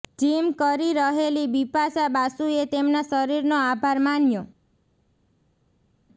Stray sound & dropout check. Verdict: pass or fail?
pass